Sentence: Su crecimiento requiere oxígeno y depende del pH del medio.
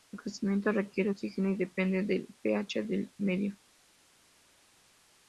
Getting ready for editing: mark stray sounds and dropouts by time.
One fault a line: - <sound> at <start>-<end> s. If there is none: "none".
none